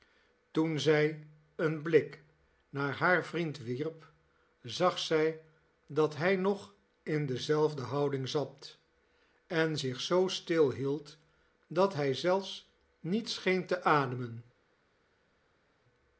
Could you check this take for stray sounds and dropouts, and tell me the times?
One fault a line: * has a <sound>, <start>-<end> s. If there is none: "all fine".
all fine